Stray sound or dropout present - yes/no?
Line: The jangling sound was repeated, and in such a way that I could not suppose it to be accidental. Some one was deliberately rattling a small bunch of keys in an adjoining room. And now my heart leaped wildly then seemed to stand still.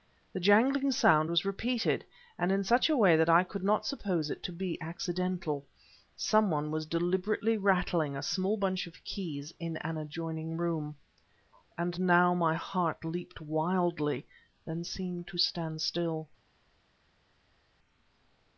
no